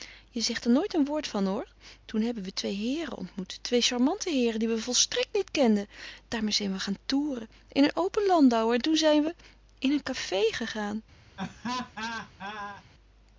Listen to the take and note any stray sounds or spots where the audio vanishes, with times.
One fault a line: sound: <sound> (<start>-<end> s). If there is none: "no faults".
sound: laugh (11.4-12.8 s)